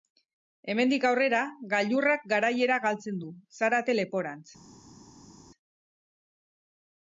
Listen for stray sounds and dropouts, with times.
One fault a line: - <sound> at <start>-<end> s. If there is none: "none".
none